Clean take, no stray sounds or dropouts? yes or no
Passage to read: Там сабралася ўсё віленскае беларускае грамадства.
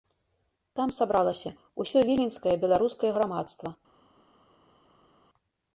yes